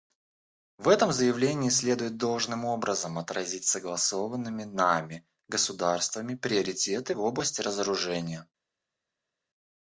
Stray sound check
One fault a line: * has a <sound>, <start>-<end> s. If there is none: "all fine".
all fine